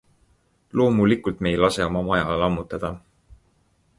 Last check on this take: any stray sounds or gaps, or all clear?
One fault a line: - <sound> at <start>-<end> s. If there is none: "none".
none